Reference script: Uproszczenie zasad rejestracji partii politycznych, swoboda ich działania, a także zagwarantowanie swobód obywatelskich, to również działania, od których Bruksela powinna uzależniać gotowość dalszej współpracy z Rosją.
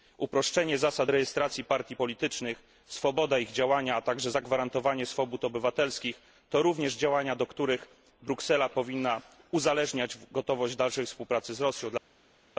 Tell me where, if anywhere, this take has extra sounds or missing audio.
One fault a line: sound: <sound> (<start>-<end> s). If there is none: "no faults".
no faults